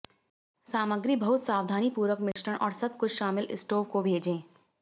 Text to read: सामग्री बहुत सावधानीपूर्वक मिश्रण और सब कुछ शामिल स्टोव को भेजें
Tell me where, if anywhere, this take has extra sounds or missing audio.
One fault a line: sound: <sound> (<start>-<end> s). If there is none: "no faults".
sound: dropout (2.3-2.4 s)